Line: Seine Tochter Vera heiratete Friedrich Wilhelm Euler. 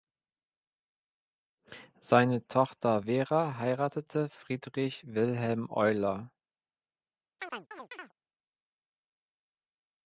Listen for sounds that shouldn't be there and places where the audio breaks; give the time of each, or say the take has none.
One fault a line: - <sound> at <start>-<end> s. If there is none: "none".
- chirp at 7.4-8.1 s